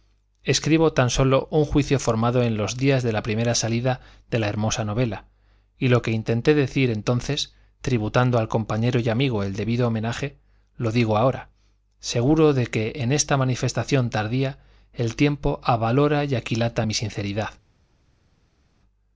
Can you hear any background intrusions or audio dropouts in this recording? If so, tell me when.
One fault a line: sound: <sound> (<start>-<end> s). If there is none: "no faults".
no faults